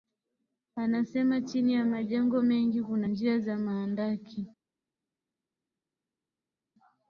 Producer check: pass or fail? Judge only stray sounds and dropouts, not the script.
pass